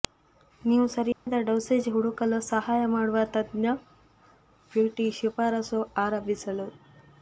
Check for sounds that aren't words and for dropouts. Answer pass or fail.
fail